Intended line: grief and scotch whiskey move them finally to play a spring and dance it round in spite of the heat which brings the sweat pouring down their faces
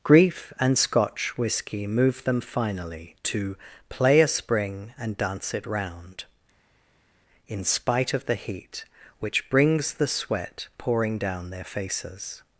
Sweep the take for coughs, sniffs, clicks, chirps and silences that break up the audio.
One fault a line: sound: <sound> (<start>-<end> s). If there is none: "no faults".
no faults